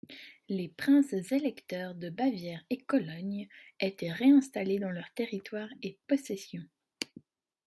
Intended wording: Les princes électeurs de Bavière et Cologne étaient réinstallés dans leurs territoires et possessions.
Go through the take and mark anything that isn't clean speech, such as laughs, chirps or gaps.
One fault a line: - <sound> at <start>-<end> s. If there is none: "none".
none